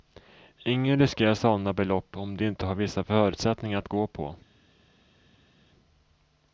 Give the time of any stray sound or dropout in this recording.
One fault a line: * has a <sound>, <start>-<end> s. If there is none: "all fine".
all fine